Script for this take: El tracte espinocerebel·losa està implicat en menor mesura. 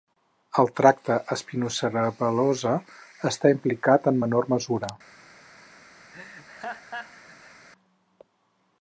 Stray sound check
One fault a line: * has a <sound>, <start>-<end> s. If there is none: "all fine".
* has a laugh, 6.1-7.7 s